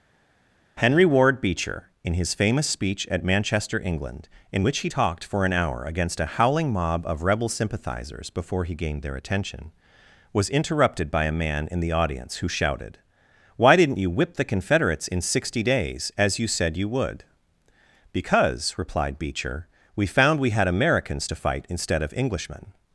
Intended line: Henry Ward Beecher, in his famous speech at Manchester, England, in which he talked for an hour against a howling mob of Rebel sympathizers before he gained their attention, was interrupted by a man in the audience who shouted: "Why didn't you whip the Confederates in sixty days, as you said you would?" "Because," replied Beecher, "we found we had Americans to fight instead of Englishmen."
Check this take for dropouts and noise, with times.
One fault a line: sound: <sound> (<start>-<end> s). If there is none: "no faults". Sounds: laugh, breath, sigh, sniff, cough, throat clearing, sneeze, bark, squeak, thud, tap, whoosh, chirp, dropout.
no faults